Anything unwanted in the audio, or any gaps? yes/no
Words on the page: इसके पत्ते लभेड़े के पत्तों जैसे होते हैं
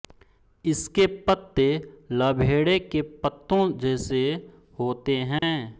yes